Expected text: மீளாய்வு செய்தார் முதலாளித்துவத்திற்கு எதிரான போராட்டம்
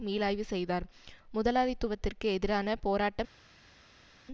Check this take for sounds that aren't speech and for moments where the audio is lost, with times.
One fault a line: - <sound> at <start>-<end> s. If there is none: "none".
none